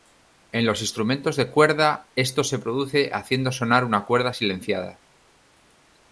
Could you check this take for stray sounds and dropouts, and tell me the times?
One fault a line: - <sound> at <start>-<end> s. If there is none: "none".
none